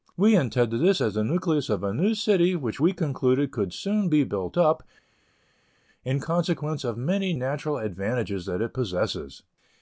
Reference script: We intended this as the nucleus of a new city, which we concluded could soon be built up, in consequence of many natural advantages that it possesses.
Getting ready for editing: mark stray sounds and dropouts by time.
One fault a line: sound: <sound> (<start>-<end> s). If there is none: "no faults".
no faults